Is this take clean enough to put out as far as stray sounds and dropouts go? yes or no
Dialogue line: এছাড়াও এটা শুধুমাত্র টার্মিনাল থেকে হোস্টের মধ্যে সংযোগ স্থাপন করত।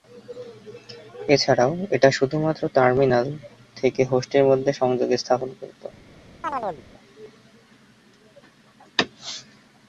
no